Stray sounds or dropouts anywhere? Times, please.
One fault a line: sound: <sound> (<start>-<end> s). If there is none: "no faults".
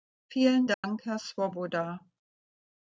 sound: dropout (0.7-0.8 s)